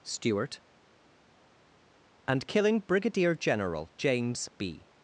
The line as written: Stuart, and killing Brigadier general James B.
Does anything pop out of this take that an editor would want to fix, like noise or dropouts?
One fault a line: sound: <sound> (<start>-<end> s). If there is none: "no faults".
no faults